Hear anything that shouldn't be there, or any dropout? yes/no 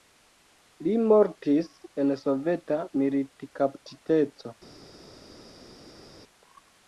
no